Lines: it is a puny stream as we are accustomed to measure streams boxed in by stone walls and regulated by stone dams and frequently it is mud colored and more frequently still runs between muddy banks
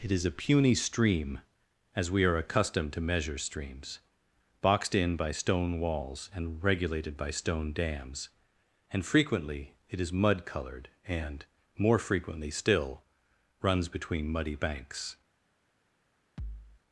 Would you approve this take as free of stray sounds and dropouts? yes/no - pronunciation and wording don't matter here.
no